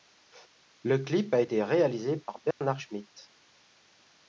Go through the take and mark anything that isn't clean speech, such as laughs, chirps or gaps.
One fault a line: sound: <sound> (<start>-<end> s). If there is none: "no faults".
sound: dropout (2.5-2.6 s)